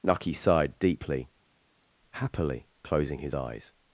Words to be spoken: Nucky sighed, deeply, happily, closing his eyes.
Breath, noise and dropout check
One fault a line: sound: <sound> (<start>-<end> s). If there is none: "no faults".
no faults